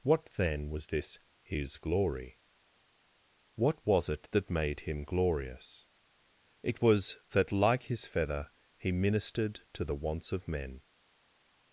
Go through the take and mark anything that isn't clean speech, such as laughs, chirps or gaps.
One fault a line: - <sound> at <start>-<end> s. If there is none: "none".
none